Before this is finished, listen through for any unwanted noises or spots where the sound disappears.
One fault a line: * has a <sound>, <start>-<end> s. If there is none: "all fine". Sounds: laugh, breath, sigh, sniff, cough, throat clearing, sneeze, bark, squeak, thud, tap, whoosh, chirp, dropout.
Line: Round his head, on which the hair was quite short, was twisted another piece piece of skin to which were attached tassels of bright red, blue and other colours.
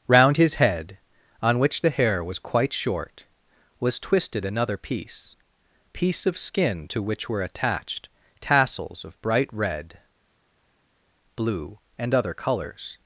all fine